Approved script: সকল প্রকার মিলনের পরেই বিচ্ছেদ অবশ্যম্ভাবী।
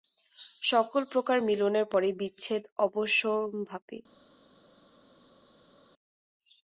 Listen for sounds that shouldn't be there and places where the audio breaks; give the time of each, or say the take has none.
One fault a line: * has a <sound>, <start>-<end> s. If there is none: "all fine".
all fine